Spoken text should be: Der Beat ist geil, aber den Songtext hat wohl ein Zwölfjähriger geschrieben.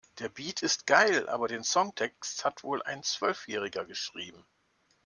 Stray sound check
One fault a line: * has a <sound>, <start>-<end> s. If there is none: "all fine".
all fine